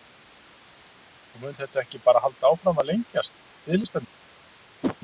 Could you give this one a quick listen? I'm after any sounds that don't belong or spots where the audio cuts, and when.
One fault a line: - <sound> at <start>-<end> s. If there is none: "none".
- whoosh at 4.8-5.0 s